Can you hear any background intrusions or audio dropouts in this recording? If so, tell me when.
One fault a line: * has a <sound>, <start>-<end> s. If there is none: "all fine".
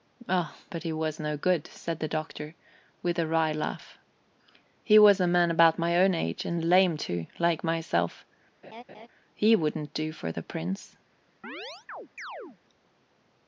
* has a laugh, 8.6-9.1 s
* has a chirp, 11.4-12.6 s